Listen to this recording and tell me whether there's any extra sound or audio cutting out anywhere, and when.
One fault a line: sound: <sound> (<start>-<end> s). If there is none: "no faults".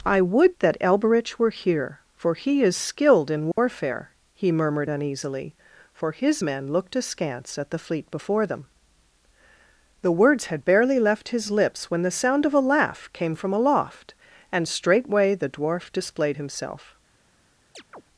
sound: dropout (3.5-3.6 s)
sound: chirp (17.7-18.0 s)